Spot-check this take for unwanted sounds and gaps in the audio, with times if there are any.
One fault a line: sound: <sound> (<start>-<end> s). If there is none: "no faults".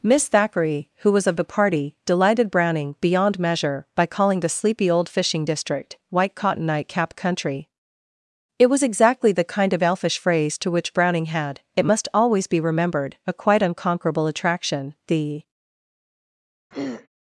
sound: throat clearing (16.7-17.1 s)